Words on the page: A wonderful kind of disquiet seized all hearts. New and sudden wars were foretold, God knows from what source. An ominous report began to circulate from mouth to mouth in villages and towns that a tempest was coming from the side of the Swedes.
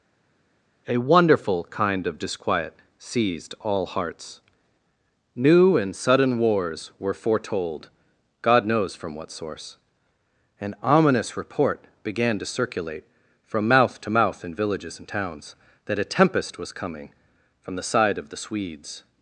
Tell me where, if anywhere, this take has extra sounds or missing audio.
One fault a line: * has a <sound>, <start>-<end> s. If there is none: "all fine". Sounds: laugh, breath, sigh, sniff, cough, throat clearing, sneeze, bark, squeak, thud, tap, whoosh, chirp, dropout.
all fine